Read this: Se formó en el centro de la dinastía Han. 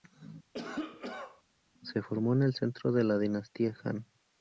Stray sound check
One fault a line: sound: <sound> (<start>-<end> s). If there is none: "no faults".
sound: cough (0.5-1.4 s)